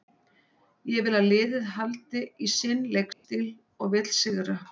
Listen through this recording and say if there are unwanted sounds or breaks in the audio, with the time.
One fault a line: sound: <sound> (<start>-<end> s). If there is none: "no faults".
sound: dropout (3.1-3.2 s)